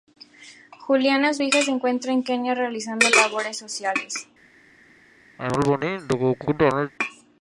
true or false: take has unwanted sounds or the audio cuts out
true